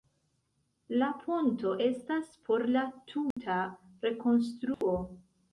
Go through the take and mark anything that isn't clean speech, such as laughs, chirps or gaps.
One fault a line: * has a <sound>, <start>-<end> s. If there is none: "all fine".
* has a dropout, 3.3-3.4 s
* has a dropout, 4.7-4.8 s